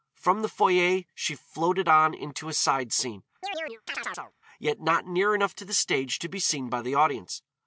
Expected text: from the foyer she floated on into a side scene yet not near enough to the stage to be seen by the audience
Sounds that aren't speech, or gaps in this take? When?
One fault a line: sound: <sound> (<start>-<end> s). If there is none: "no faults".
sound: chirp (3.4-4.3 s)